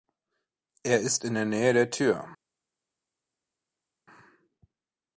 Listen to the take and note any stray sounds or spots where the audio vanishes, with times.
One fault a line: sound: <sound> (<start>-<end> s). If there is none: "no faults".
no faults